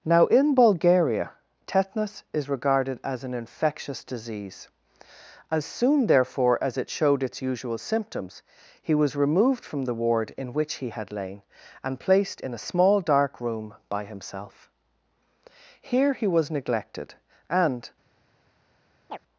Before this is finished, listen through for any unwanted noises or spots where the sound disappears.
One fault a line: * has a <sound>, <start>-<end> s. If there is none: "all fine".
* has a chirp, 19.1-19.2 s